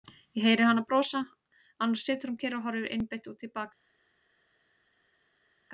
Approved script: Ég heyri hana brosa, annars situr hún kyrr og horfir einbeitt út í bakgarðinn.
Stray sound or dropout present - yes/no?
no